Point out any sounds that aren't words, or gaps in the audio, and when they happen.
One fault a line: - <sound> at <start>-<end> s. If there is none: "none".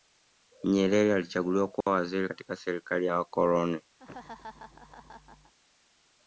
- dropout at 1.8-1.9 s
- laugh at 4.0-5.5 s